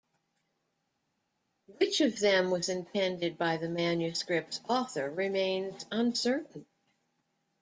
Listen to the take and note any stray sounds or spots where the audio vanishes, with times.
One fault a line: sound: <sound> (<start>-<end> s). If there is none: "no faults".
no faults